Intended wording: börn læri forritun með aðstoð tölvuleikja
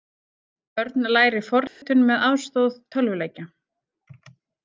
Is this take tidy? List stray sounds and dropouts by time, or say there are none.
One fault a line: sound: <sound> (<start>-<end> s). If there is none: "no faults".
sound: dropout (1.7-1.8 s)